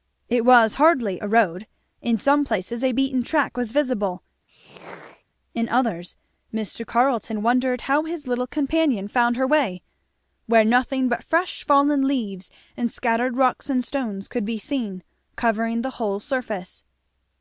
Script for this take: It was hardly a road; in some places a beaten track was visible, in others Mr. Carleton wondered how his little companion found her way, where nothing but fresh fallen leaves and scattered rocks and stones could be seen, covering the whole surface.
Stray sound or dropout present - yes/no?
yes